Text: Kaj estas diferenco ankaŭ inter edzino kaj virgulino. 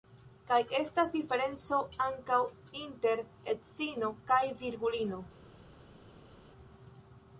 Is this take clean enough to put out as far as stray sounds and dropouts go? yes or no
yes